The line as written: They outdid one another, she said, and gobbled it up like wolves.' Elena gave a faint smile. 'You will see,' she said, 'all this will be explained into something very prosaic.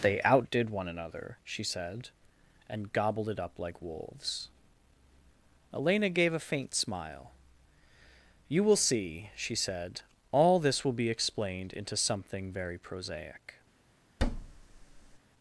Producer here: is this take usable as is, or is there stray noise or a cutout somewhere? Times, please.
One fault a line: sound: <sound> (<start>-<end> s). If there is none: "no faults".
sound: thud (14.2-15.2 s)